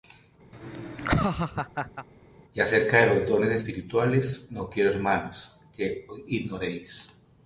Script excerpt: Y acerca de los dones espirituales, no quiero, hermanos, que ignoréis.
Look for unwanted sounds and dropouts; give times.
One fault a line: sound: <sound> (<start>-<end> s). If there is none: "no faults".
sound: laugh (0.5-2.1 s)